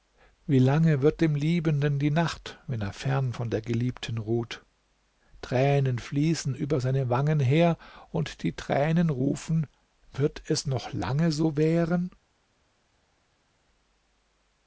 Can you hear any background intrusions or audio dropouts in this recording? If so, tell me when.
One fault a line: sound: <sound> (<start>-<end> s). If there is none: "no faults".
no faults